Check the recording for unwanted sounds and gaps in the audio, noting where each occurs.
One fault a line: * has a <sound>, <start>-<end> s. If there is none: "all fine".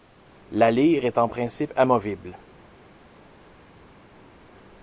all fine